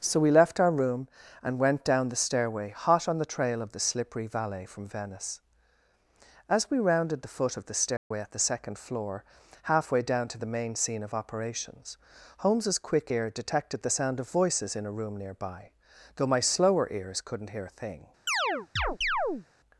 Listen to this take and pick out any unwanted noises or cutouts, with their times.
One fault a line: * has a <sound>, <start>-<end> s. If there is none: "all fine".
* has a dropout, 8.0-8.1 s
* has a chirp, 18.3-19.5 s